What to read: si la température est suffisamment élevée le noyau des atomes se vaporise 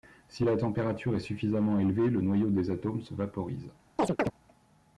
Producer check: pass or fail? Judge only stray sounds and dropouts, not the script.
fail